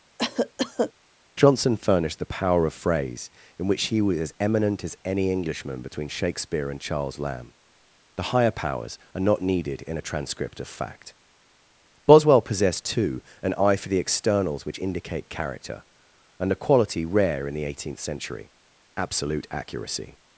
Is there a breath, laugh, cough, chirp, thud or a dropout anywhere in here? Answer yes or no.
yes